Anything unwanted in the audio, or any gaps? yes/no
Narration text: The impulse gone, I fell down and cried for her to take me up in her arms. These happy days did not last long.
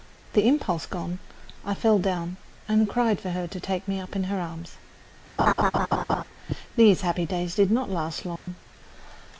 yes